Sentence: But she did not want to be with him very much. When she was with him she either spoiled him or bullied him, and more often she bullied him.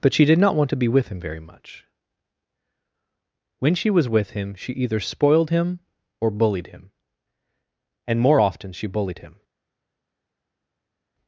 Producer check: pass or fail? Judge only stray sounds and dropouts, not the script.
pass